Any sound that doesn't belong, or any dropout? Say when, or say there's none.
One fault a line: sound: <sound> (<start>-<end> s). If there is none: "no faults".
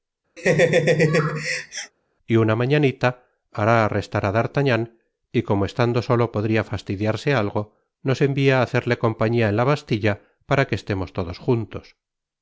sound: laugh (0.4-1.9 s)